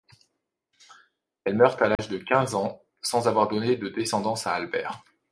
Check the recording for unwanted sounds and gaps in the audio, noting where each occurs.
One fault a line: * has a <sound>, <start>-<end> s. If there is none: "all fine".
* has a dropout, 1.9-2.0 s